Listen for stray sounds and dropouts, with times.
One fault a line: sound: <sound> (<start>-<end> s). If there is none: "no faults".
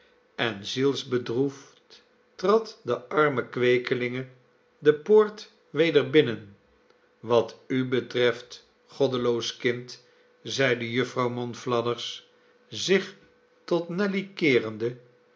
no faults